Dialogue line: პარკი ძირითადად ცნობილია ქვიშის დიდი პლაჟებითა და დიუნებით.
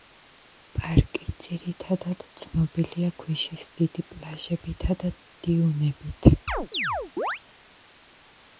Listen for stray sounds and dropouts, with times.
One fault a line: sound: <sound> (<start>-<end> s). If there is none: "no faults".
sound: chirp (6.5-7.4 s)